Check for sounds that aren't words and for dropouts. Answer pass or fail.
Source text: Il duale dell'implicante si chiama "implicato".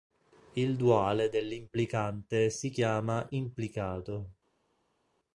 pass